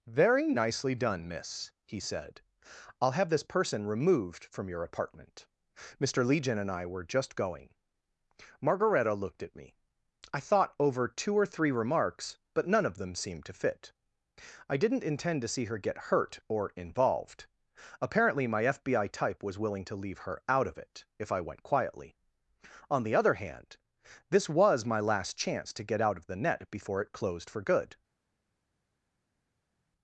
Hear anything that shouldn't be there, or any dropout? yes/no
no